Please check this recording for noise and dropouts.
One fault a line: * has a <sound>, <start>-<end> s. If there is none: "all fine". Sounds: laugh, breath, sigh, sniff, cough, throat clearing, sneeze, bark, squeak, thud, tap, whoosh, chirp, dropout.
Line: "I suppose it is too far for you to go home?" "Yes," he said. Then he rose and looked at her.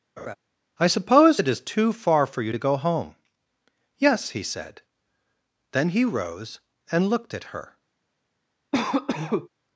* has a laugh, 0.2-0.4 s
* has a cough, 8.7-9.5 s